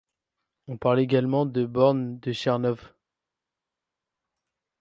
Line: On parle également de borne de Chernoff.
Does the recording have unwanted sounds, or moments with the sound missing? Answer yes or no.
no